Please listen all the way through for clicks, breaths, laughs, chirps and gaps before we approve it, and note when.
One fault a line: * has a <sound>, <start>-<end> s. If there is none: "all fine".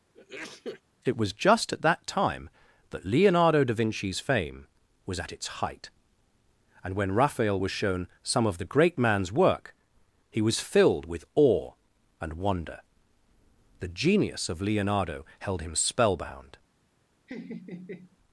* has a sneeze, 0.1-0.8 s
* has a laugh, 17.3-18.2 s